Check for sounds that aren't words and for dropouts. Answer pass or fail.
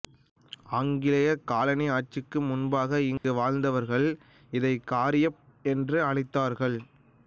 fail